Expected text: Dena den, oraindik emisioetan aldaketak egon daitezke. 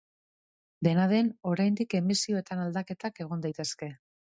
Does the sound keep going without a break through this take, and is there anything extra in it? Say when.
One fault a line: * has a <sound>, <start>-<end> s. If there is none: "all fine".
all fine